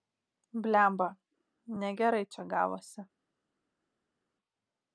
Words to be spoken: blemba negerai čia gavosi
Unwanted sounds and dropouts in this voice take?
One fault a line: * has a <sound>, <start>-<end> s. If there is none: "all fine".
all fine